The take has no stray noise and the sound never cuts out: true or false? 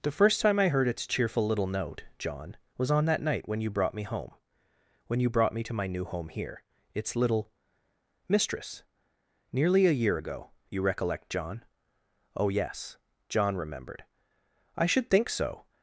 true